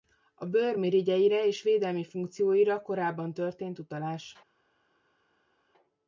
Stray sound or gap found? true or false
false